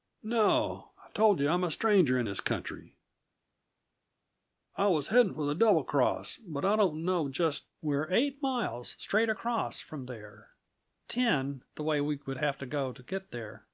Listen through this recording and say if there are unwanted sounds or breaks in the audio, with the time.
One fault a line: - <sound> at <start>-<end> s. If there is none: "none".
none